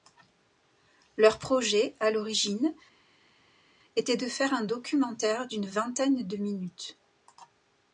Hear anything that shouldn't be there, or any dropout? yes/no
no